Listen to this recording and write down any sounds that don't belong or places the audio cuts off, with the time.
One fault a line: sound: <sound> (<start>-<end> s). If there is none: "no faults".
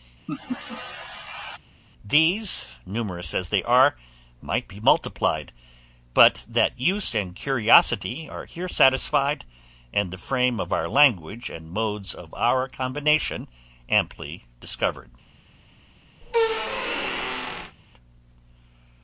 sound: laugh (0.3-1.6 s)
sound: squeak (16.2-17.8 s)